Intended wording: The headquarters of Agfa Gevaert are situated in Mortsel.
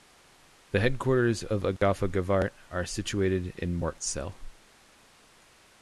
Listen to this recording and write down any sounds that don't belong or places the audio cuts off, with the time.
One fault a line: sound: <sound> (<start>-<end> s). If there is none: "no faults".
sound: dropout (1.8-1.8 s)